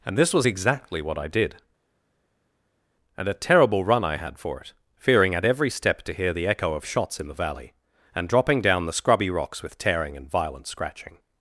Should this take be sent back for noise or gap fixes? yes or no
no